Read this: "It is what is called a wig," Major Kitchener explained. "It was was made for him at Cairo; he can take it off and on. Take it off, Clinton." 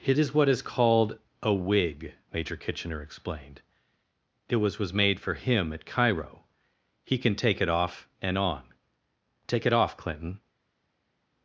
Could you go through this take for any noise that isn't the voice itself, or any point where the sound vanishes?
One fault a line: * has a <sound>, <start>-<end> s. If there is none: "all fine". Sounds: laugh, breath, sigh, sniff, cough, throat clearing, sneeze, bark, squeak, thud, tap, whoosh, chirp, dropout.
all fine